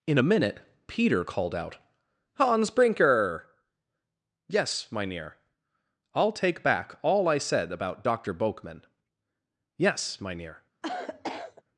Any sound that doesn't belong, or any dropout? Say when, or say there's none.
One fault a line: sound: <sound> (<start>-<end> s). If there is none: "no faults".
sound: cough (10.8-11.6 s)